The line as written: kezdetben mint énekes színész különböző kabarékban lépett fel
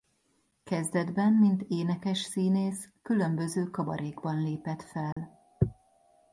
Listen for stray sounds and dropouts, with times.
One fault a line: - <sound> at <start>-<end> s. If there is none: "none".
- dropout at 5.1-5.2 s